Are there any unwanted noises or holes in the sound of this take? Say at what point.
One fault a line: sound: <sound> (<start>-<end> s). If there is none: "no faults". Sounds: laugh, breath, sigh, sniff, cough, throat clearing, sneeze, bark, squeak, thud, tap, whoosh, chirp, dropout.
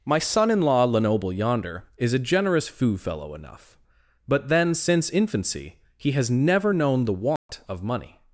sound: dropout (7.4-7.5 s)